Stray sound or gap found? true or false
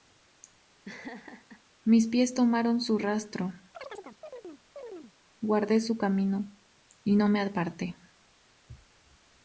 true